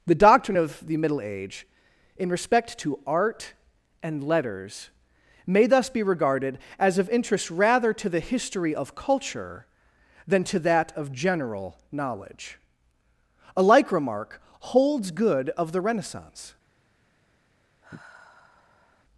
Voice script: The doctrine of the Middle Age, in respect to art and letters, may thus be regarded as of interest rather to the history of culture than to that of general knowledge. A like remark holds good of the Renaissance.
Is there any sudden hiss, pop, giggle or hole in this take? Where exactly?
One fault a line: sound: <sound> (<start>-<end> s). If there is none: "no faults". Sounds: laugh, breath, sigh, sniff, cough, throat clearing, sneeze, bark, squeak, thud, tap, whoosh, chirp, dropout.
sound: sigh (17.8-19.0 s)